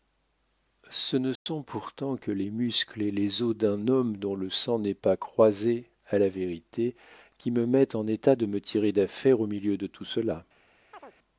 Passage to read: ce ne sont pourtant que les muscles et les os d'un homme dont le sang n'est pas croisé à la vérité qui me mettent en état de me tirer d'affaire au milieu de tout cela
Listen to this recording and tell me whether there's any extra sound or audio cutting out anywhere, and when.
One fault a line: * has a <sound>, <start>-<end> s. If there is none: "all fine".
* has a dropout, 1.4-1.5 s
* has a chirp, 10.9-11.1 s